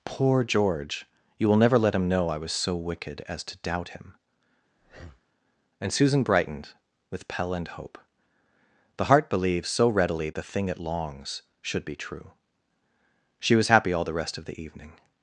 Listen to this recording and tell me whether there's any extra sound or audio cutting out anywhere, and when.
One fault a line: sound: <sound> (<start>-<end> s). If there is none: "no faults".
sound: breath (4.8-5.3 s)